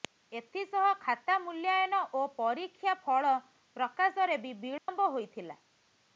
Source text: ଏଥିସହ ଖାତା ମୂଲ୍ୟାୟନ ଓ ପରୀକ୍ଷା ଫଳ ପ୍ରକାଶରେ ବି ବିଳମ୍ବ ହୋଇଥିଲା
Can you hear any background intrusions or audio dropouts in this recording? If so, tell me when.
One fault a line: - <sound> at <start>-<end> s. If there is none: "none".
- dropout at 4.8-4.9 s